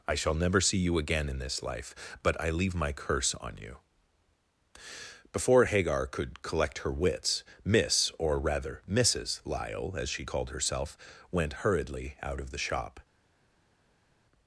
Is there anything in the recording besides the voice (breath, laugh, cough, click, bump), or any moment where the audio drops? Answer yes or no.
no